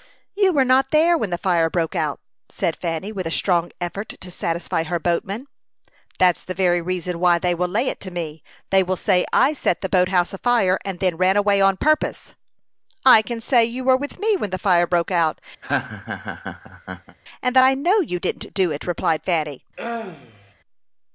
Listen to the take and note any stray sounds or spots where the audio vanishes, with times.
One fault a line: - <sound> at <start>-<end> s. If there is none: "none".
- laugh at 15.6-17.2 s
- throat clearing at 19.8-20.5 s